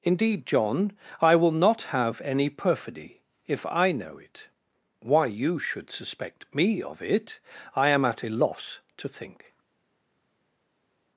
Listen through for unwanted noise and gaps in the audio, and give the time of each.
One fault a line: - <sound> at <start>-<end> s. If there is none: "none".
none